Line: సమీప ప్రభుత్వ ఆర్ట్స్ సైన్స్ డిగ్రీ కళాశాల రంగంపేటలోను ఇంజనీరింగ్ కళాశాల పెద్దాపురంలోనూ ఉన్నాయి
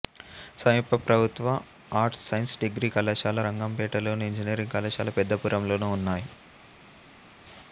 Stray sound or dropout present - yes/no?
no